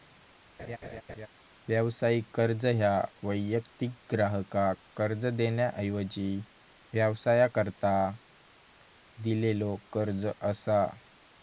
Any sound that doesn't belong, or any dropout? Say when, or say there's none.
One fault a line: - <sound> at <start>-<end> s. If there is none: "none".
- laugh at 0.6-1.3 s